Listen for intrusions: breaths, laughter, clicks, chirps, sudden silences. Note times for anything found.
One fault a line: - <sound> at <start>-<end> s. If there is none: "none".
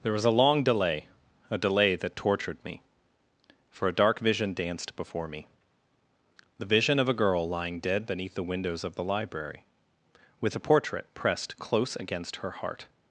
none